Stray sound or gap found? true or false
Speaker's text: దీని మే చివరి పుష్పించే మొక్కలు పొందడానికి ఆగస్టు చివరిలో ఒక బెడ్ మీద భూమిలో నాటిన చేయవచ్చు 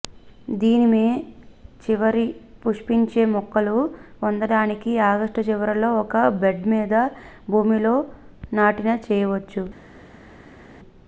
false